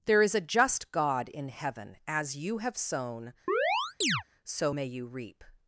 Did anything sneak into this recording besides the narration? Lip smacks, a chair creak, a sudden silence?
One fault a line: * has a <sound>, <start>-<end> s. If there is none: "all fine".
* has a chirp, 3.5-4.2 s